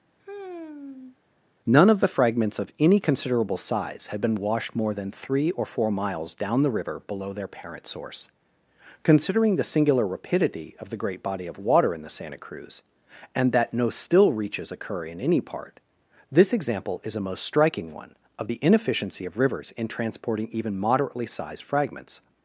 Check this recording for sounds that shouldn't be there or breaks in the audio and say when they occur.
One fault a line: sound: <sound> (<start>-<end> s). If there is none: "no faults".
sound: sigh (0.2-1.2 s)